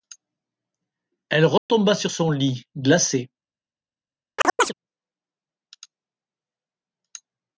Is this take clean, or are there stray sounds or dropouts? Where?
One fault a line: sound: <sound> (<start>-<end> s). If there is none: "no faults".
sound: dropout (1.6-1.7 s)
sound: chirp (4.4-4.7 s)